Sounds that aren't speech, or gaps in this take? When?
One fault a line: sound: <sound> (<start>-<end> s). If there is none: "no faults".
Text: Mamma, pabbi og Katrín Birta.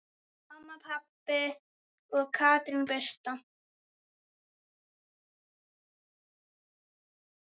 no faults